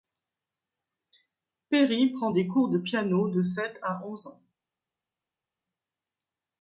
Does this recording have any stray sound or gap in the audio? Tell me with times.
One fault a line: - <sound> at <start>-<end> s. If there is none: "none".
none